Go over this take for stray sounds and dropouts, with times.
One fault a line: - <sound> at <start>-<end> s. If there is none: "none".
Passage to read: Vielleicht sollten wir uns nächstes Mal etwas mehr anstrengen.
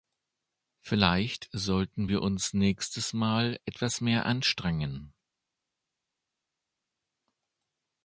none